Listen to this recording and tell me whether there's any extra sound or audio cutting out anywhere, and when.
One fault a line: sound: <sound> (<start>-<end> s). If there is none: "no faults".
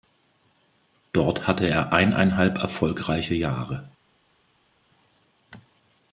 no faults